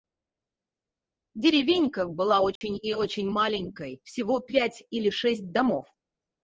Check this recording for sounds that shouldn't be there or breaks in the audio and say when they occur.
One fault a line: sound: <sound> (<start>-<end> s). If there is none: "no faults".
sound: dropout (2.6-2.6 s)